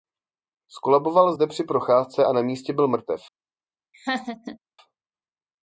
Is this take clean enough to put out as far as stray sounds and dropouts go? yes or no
no